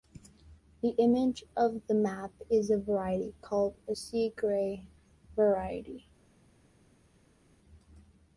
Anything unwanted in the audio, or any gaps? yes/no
no